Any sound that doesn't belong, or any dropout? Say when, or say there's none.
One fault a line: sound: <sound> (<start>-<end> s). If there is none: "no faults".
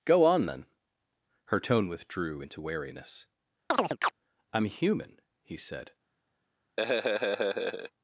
sound: chirp (3.7-4.1 s)
sound: laugh (6.8-7.9 s)